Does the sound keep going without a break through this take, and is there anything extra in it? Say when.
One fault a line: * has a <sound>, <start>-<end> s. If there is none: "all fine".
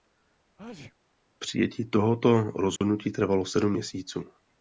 * has a sneeze, 0.6-1.0 s
* has a dropout, 2.8-2.8 s